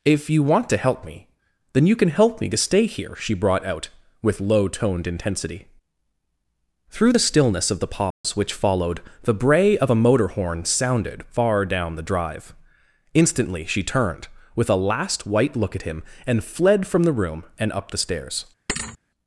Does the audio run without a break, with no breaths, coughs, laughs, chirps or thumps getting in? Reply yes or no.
no